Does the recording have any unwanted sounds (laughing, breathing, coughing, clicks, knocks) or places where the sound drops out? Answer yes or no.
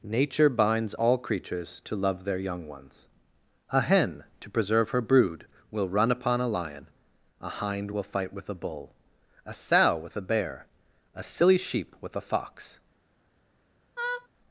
yes